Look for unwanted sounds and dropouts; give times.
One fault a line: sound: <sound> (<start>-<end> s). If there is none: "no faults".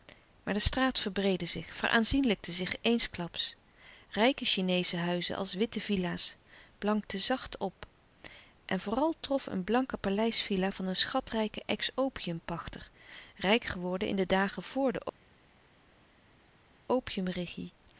no faults